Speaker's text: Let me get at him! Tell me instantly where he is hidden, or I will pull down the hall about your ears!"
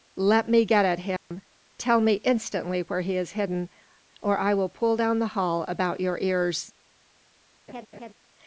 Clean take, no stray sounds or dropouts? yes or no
no